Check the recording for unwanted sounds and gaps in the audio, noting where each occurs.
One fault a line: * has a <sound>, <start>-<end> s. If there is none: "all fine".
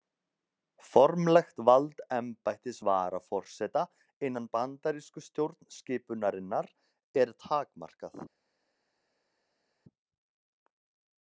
all fine